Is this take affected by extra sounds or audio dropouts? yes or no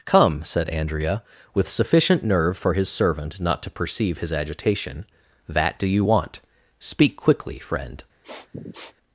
yes